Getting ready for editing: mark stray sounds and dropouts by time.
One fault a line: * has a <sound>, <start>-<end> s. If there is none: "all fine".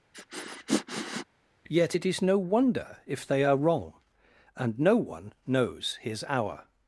* has a sniff, 0.1-1.3 s